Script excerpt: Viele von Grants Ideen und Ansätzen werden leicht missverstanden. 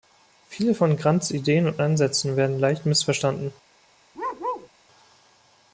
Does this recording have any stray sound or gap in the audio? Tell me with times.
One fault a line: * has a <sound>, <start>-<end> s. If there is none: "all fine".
* has a bark, 4.1-4.7 s